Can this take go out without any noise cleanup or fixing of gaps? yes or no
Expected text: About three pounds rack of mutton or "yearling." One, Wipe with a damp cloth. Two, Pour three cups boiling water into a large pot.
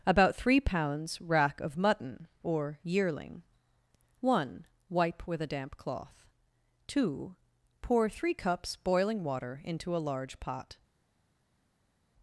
yes